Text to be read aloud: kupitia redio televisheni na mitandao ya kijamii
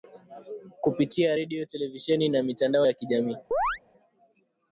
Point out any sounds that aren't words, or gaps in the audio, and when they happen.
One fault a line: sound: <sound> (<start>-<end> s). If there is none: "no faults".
sound: chirp (3.5-3.8 s)